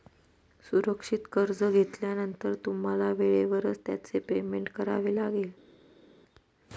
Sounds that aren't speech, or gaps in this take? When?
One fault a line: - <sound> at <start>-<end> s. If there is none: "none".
none